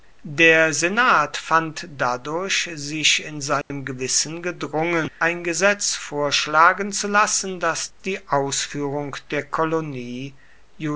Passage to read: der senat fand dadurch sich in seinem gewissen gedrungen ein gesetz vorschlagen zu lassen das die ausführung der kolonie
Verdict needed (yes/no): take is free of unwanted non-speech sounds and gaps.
no